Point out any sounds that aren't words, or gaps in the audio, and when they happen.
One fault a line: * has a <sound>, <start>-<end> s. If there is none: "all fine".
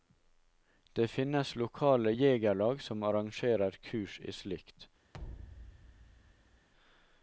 * has a thud, 5.1-6.7 s